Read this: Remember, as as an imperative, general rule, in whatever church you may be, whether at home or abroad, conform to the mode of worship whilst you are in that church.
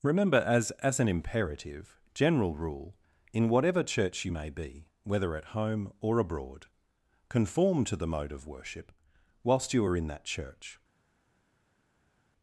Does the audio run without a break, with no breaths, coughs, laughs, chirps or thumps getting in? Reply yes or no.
yes